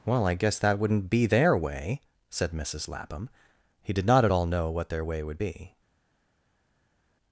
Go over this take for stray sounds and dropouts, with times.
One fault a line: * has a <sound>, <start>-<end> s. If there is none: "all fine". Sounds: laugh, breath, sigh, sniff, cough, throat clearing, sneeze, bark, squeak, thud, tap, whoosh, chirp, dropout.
all fine